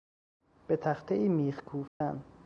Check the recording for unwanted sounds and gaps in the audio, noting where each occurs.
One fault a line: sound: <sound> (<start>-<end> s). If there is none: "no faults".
sound: dropout (1.9-2.0 s)